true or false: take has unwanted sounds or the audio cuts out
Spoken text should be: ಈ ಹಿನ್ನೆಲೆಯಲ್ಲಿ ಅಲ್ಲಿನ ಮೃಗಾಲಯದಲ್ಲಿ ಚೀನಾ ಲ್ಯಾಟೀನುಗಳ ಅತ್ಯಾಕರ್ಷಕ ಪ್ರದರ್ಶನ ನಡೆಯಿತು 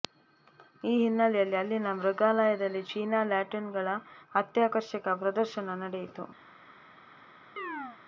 true